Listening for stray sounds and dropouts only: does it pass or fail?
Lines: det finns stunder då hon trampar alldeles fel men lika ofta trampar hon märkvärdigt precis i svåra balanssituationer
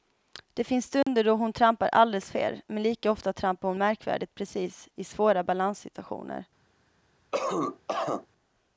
fail